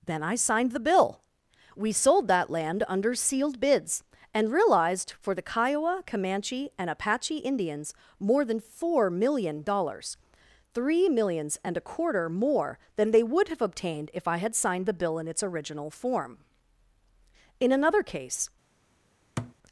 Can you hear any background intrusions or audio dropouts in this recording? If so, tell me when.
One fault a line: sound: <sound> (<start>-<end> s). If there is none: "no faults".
sound: thud (19.4-19.5 s)